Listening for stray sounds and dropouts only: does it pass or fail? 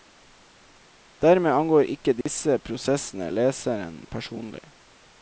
fail